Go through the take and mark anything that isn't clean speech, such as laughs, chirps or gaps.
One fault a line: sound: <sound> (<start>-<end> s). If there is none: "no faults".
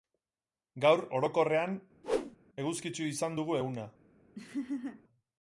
sound: whoosh (2.0-2.4 s)
sound: laugh (4.3-5.0 s)